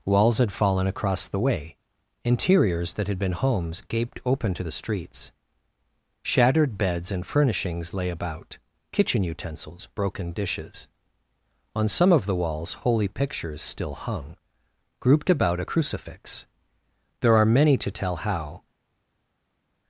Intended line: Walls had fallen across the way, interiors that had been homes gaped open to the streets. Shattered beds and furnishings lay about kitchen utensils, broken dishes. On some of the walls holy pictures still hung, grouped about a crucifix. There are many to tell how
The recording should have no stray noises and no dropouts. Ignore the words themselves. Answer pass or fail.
pass